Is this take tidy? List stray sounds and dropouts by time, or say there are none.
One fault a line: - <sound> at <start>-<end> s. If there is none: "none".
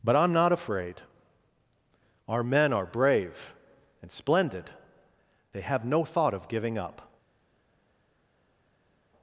none